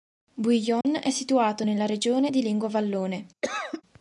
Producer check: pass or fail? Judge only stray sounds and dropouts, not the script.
fail